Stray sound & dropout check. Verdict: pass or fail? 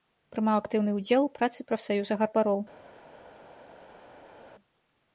pass